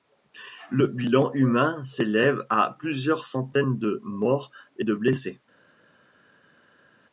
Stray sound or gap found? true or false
false